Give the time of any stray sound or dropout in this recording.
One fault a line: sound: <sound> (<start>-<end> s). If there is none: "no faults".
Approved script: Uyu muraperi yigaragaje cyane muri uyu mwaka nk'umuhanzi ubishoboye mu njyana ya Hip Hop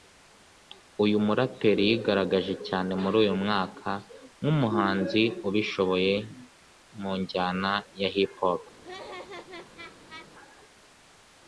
sound: laugh (8.8-10.3 s)